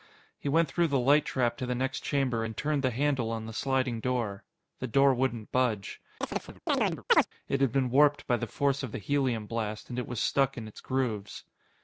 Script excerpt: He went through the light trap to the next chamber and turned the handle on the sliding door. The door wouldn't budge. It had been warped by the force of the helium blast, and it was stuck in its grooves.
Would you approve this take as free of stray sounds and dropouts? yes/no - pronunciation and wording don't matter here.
no